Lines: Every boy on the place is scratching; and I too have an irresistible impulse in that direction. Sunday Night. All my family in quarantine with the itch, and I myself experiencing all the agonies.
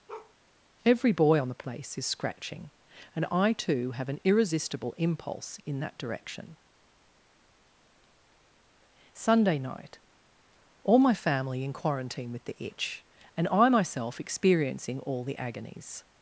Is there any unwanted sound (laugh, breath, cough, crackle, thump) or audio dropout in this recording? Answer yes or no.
yes